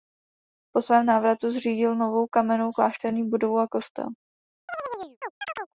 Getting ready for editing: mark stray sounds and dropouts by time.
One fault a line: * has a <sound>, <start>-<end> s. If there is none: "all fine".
* has a chirp, 4.7-5.7 s